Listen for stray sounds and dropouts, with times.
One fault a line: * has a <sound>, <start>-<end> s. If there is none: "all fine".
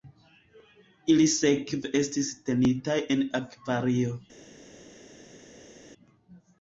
all fine